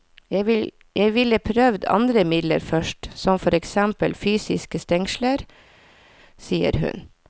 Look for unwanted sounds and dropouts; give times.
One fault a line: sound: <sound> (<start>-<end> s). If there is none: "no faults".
no faults